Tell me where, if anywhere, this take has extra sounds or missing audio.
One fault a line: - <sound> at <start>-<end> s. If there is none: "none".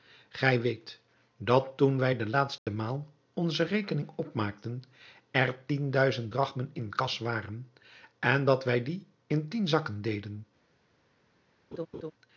- dropout at 2.6-2.7 s
- laugh at 11.7-12.1 s